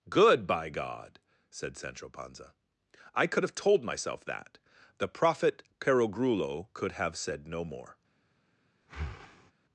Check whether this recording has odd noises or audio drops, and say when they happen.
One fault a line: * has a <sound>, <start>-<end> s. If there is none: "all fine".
* has a breath, 8.8-9.5 s